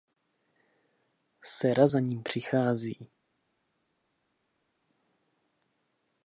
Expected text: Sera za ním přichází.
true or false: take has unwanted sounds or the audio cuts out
false